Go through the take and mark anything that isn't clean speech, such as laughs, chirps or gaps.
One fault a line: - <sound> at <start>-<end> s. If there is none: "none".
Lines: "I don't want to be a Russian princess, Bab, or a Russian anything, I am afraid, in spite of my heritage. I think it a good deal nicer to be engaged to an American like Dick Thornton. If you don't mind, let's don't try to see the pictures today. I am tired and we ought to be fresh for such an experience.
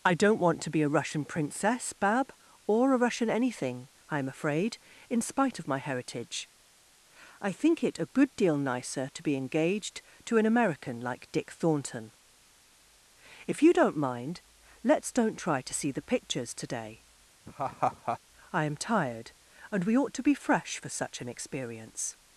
- laugh at 17.5-18.2 s